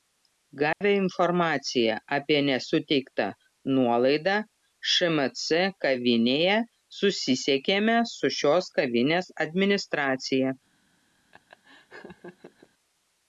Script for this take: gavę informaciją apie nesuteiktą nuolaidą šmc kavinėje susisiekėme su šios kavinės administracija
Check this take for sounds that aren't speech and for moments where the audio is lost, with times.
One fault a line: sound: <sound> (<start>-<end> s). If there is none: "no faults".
sound: dropout (0.7-0.8 s)
sound: laugh (11.3-12.7 s)